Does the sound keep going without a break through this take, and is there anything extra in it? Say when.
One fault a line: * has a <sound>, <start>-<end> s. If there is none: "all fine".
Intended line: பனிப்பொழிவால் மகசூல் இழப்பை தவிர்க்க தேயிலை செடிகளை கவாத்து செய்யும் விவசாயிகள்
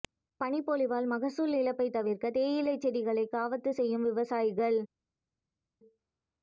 all fine